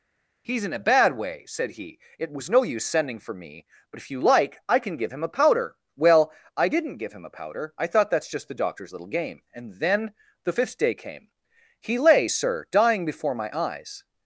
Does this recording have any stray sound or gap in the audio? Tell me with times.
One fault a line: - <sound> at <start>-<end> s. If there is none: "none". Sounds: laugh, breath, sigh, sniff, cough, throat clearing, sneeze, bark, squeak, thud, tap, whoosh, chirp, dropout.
none